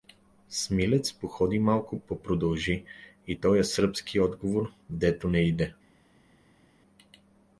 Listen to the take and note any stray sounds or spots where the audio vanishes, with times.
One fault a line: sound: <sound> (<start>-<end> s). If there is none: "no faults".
no faults